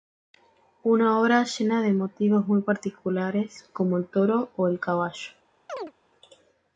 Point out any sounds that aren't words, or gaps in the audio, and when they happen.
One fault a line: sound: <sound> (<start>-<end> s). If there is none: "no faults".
sound: chirp (5.7-5.9 s)